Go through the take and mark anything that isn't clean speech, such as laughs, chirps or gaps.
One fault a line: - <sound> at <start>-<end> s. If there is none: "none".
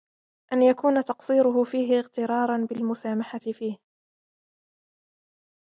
none